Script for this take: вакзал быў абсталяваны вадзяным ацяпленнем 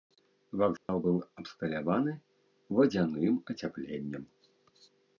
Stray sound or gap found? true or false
true